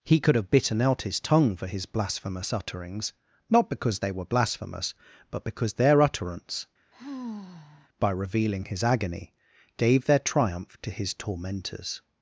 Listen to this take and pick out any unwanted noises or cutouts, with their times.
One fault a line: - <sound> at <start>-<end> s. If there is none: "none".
- sigh at 6.9-7.9 s